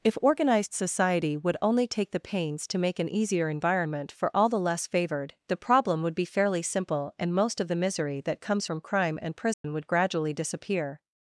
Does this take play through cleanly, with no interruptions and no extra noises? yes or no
no